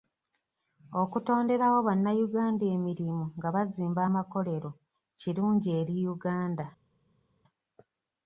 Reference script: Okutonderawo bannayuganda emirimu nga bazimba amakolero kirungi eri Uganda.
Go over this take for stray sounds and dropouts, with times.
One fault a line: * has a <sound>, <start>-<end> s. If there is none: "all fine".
all fine